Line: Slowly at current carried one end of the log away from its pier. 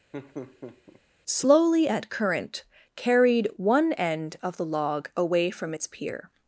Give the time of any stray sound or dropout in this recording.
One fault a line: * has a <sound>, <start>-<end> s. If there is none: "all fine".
* has a laugh, 0.1-1.0 s